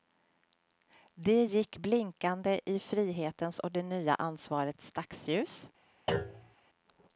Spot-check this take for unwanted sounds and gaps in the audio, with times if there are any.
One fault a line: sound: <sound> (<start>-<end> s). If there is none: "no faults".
sound: thud (6.1-6.5 s)